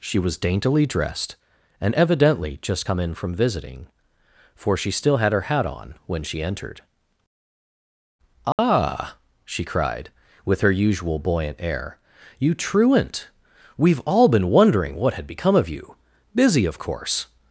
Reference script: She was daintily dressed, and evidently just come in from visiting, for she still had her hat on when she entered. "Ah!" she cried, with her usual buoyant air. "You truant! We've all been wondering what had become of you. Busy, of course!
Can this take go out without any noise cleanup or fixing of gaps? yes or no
no